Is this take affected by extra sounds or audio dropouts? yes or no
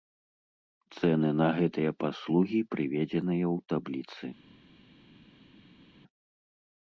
no